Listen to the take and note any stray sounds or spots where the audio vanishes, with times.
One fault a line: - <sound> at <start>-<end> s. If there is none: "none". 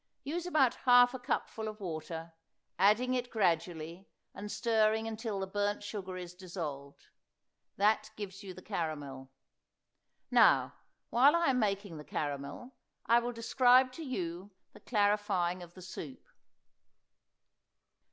none